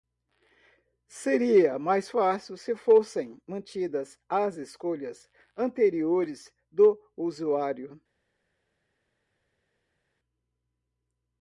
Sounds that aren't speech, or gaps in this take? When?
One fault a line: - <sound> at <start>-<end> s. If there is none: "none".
none